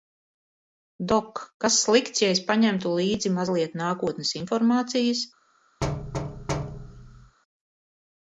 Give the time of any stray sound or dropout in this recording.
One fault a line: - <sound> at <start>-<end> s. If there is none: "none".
- thud at 5.8-7.4 s